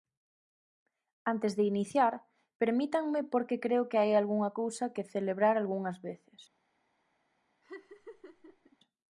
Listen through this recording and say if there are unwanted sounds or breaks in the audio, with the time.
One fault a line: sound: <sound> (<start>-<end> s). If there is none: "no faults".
sound: laugh (7.6-8.8 s)